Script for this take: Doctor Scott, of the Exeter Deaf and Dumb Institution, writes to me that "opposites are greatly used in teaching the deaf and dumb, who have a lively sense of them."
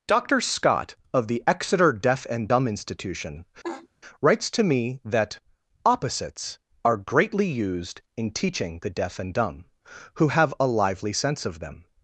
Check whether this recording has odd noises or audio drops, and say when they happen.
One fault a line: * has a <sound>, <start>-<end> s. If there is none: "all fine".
* has a laugh, 3.6-3.9 s